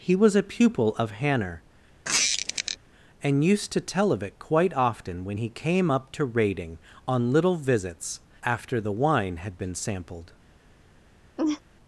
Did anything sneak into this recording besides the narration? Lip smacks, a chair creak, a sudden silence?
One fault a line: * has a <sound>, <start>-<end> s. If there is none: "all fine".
* has a squeak, 2.0-2.8 s
* has a laugh, 11.4-11.6 s